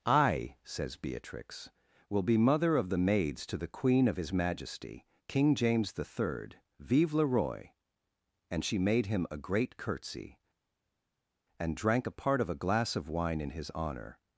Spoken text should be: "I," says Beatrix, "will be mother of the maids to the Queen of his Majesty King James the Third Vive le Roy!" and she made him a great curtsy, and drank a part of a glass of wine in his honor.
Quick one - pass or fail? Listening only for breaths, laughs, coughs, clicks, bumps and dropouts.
pass